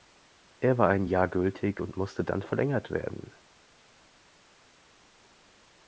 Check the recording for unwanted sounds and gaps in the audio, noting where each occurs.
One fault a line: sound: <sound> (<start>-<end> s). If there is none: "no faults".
no faults